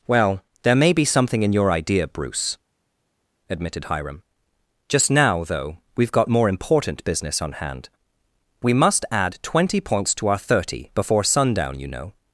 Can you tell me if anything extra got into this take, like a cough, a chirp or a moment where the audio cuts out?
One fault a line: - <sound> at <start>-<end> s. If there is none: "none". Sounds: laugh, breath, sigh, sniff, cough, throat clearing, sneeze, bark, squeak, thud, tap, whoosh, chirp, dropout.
none